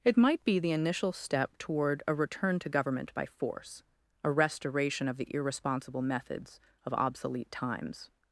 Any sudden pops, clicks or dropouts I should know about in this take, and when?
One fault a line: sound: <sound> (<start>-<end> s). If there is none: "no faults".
no faults